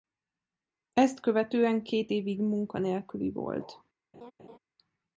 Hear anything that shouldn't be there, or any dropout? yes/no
yes